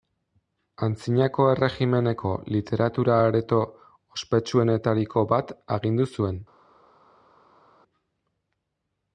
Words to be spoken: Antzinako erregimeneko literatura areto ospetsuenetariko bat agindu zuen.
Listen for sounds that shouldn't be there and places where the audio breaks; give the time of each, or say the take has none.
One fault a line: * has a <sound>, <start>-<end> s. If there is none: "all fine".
all fine